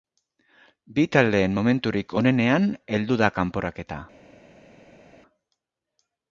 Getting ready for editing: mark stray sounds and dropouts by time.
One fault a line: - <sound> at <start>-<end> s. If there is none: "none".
none